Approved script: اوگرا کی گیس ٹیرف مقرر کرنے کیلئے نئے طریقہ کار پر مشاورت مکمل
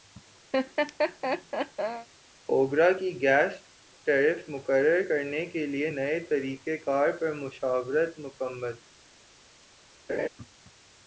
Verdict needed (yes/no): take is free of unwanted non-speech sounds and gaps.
no